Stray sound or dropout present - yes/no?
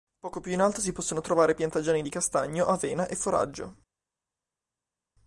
no